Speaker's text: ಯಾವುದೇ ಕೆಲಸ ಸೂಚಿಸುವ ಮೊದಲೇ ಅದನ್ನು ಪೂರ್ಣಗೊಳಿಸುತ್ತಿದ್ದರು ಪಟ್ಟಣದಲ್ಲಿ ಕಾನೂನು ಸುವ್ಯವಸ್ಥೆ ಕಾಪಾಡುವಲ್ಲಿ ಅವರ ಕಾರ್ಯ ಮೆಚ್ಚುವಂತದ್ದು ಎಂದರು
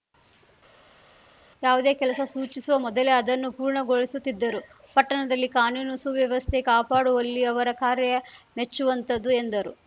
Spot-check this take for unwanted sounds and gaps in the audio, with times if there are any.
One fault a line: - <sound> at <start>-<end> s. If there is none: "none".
none